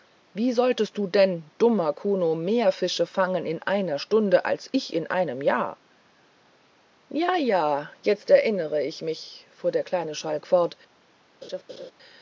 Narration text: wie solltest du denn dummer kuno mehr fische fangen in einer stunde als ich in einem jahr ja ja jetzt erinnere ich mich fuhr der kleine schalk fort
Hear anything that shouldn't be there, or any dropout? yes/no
yes